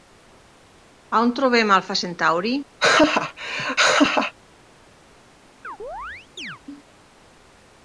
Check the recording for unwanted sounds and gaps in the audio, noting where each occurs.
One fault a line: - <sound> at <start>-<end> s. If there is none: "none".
- laugh at 2.8-4.3 s
- chirp at 5.6-6.6 s